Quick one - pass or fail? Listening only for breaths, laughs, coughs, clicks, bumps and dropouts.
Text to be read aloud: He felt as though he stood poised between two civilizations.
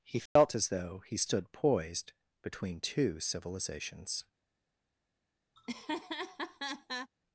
fail